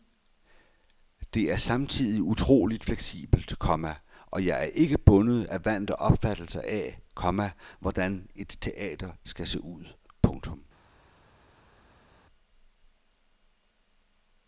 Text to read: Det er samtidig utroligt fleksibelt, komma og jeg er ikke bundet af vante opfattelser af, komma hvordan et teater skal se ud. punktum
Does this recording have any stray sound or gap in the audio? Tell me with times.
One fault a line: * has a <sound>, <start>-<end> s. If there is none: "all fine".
all fine